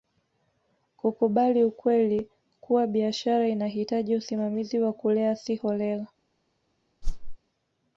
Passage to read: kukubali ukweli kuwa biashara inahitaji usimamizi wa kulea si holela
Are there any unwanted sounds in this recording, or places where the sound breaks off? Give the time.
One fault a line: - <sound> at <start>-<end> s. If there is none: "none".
- whoosh at 7.0-7.4 s